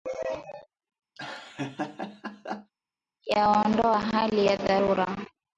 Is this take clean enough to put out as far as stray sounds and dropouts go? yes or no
no